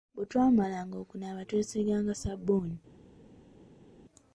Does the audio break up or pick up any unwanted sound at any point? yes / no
no